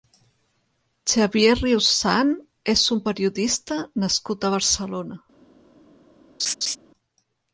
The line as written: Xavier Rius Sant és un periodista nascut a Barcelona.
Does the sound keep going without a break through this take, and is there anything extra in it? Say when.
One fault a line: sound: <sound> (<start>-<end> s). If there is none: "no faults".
sound: laugh (6.4-6.8 s)